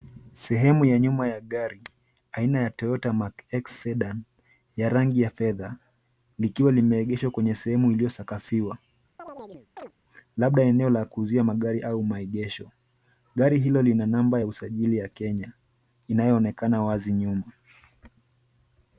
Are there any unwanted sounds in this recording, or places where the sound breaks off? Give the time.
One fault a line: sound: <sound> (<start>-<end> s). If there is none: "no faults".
sound: chirp (9.2-9.9 s)